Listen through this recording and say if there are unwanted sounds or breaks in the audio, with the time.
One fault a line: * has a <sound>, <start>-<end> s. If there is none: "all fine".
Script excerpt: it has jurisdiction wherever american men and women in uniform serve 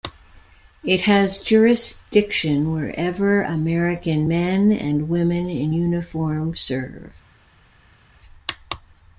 all fine